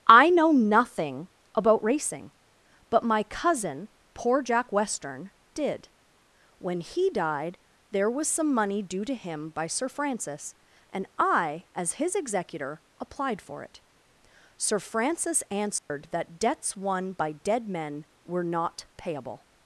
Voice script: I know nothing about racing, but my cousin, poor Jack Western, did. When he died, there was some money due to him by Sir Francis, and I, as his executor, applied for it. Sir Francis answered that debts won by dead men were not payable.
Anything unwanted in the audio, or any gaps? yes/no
yes